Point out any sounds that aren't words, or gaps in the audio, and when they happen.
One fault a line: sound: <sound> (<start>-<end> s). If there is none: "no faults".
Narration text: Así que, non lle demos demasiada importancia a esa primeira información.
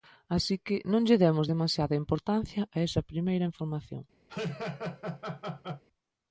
sound: laugh (4.3-5.8 s)